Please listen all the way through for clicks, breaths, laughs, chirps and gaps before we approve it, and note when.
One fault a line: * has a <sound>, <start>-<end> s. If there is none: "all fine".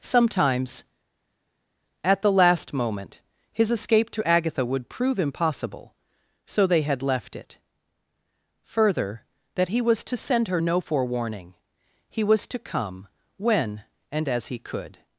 all fine